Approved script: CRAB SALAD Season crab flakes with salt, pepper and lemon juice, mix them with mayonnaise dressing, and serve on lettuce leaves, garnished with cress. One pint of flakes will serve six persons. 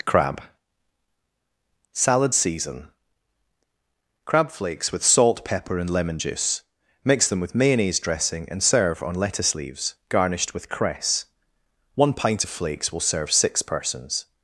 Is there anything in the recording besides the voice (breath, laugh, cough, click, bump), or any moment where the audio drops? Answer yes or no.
no